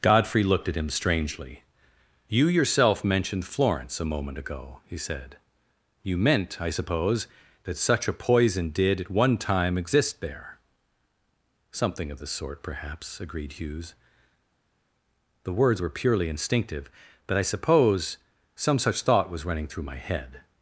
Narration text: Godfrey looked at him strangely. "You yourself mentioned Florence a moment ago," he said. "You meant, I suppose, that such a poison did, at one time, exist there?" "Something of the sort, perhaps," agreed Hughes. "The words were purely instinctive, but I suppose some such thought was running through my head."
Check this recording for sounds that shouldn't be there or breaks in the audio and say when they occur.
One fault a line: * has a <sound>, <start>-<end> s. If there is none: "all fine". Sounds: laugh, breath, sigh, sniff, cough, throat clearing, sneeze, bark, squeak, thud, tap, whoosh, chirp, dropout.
all fine